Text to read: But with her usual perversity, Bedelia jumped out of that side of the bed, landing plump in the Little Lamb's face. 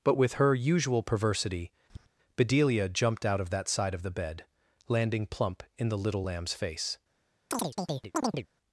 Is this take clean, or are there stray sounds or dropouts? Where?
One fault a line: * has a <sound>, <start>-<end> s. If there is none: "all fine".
* has a tap, 1.9-2.1 s
* has a chirp, 7.5-8.5 s